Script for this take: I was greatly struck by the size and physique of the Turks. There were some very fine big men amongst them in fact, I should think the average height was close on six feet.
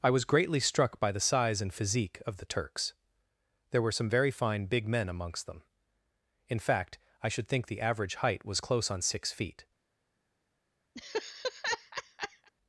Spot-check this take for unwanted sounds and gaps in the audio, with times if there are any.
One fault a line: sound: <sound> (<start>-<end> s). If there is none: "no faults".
sound: laugh (11.0-12.5 s)